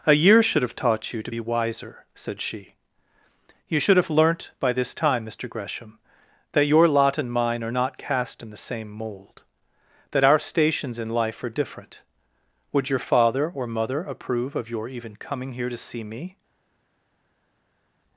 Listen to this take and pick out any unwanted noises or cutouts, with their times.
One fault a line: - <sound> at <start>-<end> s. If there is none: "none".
none